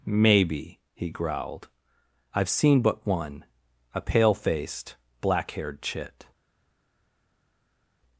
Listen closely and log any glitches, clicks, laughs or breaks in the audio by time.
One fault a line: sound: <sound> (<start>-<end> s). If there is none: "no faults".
no faults